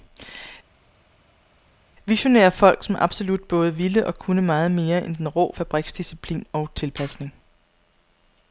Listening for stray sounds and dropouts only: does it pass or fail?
pass